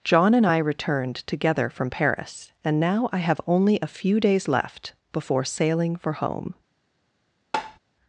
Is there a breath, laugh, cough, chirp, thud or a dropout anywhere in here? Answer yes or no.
yes